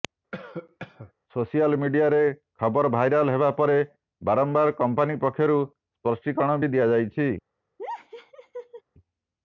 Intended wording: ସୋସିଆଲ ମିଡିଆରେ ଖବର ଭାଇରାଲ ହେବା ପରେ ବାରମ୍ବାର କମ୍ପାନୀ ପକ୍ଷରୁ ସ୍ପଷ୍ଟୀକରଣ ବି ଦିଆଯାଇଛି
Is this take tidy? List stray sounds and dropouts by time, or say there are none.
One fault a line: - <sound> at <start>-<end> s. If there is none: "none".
- cough at 0.3-1.1 s
- laugh at 7.8-8.8 s